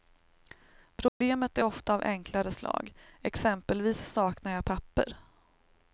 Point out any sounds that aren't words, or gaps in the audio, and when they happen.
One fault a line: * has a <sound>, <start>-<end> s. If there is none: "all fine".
* has a dropout, 1.1-1.2 s